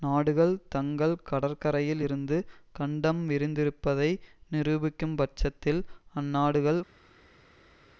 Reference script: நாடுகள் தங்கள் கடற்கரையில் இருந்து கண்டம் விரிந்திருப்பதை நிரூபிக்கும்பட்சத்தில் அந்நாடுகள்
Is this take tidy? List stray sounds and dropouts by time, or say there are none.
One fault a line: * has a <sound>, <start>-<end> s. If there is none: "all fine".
all fine